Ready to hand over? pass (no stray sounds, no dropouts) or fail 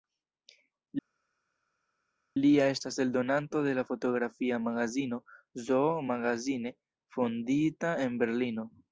pass